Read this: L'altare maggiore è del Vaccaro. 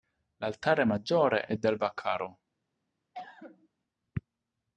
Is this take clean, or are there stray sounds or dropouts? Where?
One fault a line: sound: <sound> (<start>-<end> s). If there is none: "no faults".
sound: cough (3.1-3.7 s)